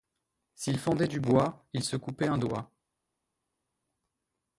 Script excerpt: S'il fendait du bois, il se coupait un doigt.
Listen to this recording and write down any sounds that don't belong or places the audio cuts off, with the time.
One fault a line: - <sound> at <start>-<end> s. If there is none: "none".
none